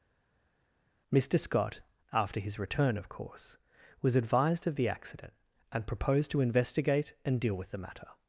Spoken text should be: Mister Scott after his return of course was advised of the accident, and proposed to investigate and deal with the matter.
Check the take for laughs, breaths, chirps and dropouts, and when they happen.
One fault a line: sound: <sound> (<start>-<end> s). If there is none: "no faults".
no faults